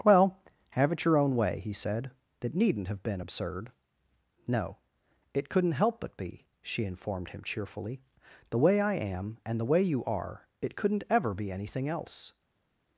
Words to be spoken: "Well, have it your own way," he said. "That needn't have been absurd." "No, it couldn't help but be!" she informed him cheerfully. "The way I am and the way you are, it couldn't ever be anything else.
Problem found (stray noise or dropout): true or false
false